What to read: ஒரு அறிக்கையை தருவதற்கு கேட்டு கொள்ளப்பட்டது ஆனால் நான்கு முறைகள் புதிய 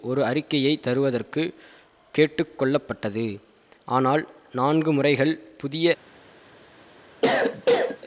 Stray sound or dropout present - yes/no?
yes